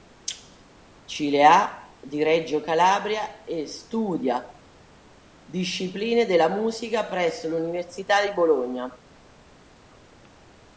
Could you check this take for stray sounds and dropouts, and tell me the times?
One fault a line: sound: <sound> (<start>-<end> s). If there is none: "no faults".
no faults